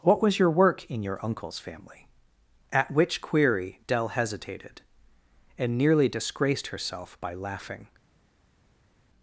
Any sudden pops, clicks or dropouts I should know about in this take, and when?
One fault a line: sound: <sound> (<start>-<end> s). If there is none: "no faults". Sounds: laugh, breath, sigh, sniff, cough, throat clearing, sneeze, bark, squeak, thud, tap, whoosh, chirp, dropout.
no faults